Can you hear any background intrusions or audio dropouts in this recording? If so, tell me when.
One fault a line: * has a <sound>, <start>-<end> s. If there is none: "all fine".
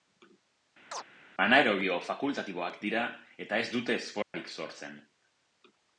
* has a chirp, 0.9-1.0 s
* has a dropout, 4.2-4.3 s